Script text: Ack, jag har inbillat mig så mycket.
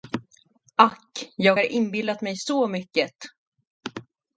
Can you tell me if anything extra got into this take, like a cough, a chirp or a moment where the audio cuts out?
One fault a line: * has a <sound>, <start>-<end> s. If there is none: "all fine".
all fine